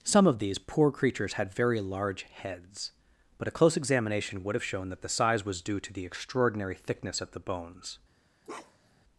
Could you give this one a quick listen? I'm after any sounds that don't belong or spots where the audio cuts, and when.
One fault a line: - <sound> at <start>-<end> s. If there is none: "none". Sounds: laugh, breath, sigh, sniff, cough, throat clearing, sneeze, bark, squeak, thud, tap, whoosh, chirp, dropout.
- bark at 8.4-9.0 s